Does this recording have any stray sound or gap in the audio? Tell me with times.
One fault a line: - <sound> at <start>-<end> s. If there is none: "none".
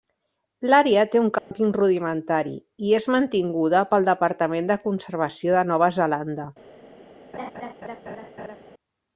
- dropout at 1.4-1.5 s
- laugh at 7.3-8.6 s